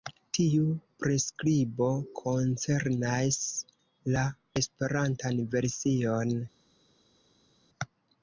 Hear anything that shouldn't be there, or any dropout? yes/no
no